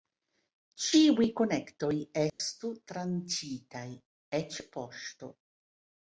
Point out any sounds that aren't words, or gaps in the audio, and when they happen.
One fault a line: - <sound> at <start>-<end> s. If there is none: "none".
- dropout at 2.3-2.4 s